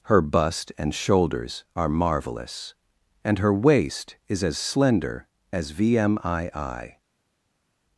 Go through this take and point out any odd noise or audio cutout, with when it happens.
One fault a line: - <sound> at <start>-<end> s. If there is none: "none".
none